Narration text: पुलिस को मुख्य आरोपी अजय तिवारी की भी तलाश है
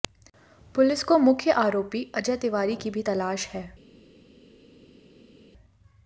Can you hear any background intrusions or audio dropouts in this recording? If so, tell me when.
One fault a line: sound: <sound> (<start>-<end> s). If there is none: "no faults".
no faults